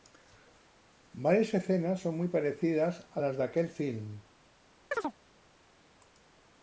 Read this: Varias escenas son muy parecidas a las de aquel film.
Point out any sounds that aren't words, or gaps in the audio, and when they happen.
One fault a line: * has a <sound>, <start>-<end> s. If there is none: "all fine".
* has a chirp, 4.9-5.1 s